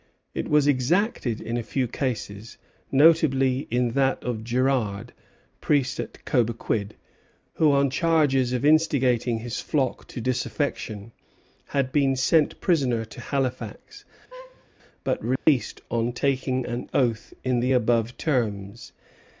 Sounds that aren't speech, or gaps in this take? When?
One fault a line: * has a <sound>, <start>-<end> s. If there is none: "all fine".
* has a laugh, 14.3-14.7 s
* has a dropout, 15.4-15.5 s